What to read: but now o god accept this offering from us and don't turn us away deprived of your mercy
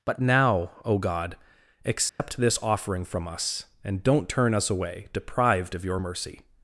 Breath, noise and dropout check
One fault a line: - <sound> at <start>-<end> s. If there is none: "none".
- dropout at 2.1-2.2 s